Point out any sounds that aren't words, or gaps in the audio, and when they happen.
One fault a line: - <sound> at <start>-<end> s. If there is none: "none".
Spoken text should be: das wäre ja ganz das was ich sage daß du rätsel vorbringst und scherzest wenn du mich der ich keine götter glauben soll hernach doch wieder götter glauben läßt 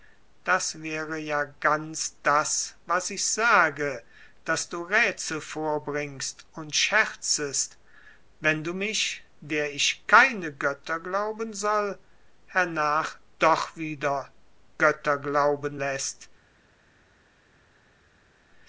none